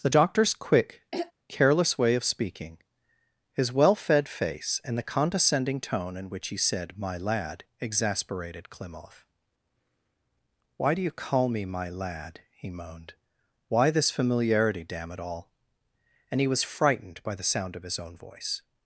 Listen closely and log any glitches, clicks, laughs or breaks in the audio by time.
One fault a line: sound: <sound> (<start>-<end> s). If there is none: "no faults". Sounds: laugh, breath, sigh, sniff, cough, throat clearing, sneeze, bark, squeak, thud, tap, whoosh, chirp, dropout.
sound: throat clearing (1.1-1.3 s)